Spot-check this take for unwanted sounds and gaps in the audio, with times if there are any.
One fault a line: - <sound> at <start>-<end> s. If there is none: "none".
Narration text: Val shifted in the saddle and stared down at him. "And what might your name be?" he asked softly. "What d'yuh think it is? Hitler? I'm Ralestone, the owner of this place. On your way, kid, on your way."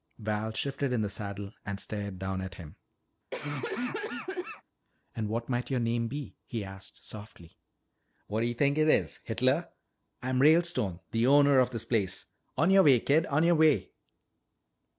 - cough at 3.3-4.6 s